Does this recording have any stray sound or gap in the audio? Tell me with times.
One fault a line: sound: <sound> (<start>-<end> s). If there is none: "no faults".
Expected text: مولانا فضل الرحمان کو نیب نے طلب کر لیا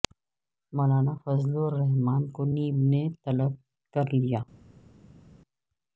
no faults